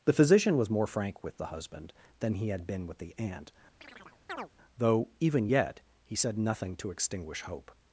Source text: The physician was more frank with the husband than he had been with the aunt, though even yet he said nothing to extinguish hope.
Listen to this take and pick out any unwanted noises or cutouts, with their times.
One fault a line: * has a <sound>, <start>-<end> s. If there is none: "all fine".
* has a chirp, 3.8-4.5 s